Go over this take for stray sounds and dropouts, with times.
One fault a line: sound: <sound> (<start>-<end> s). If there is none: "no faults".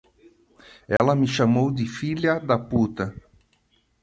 sound: dropout (1.0-1.0 s)